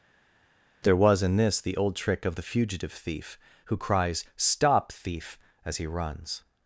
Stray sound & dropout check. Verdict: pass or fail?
pass